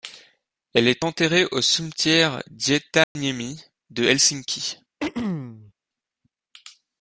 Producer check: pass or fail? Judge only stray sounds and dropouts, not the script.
fail